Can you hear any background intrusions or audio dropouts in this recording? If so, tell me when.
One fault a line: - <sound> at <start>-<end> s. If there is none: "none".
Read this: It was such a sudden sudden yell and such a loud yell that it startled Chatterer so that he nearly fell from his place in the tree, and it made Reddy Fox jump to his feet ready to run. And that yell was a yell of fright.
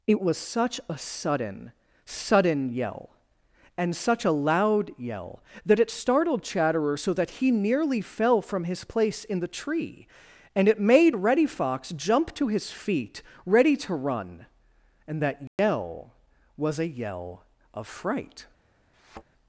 - dropout at 15.5-15.6 s
- thud at 18.9-19.2 s